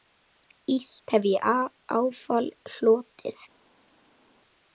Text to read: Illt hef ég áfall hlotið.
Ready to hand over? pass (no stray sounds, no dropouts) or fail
pass